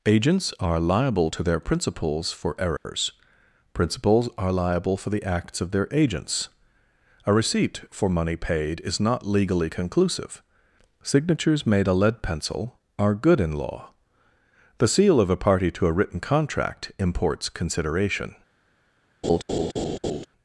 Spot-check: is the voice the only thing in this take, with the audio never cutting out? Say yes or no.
no